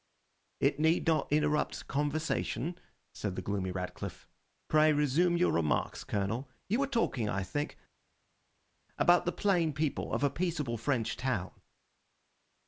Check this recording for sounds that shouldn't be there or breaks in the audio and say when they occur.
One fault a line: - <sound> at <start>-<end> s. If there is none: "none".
none